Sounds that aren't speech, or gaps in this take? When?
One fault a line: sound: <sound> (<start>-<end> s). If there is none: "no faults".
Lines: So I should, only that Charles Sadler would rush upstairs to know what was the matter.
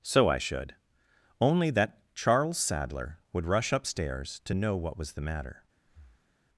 sound: breath (5.9-6.4 s)